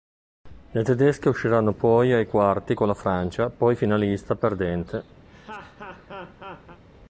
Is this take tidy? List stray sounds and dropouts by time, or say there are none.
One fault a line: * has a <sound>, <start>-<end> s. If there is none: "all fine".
* has a laugh, 5.2-6.8 s